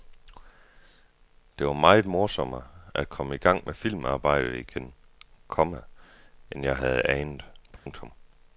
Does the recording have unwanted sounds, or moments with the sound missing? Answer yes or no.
yes